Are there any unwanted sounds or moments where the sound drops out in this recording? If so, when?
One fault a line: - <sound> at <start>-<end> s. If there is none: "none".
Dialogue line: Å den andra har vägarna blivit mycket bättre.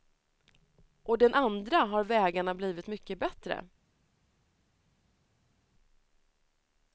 none